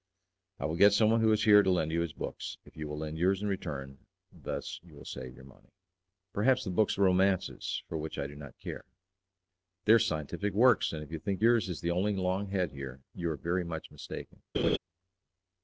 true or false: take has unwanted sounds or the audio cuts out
true